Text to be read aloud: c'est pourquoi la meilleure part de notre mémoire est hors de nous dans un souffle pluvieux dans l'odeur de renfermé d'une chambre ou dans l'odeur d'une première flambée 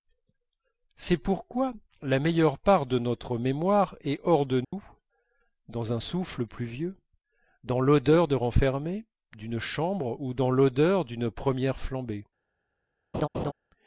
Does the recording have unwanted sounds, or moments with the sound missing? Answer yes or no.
yes